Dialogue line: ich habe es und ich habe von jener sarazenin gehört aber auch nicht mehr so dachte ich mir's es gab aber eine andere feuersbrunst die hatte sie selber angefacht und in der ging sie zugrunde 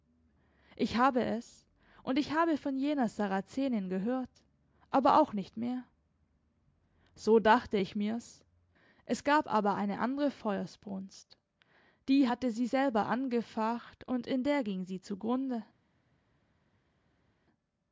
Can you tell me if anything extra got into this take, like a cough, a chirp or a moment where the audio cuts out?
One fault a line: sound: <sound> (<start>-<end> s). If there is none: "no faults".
no faults